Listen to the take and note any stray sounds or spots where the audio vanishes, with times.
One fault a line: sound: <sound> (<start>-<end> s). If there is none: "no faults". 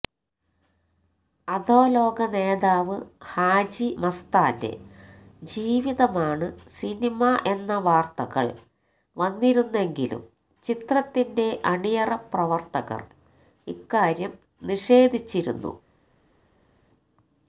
no faults